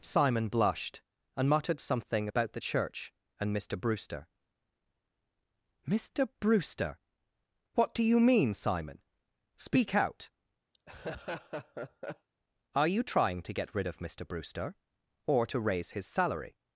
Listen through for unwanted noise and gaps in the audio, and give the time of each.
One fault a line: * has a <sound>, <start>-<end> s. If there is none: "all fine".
* has a laugh, 10.7-12.3 s